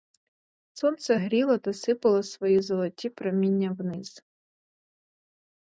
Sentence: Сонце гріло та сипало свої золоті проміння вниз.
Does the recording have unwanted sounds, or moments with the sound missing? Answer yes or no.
no